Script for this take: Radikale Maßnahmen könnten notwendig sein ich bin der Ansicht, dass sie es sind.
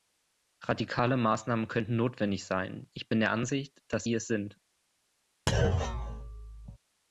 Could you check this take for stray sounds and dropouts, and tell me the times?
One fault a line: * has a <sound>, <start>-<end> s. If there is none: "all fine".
* has a thud, 5.5-6.8 s